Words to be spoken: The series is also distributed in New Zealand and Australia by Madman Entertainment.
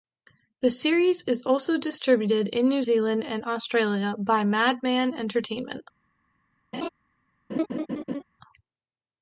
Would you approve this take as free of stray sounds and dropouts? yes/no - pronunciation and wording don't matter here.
no